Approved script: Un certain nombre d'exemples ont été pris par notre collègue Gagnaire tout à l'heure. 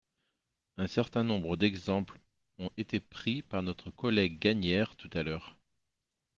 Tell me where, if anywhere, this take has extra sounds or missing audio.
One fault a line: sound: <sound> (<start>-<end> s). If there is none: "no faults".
no faults